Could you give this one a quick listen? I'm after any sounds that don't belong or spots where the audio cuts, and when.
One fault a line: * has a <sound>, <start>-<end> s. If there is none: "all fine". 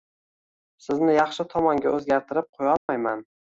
* has a dropout, 2.8-2.9 s